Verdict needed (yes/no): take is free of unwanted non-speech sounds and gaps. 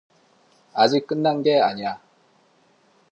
yes